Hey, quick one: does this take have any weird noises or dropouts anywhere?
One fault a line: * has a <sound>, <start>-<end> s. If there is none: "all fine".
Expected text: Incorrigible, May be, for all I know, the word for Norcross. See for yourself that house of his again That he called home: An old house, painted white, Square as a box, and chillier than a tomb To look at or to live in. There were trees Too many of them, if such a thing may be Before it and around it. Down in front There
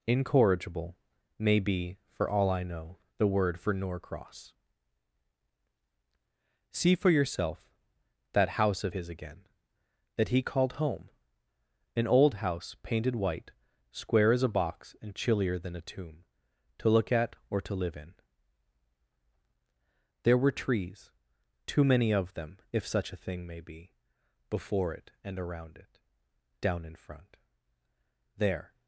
all fine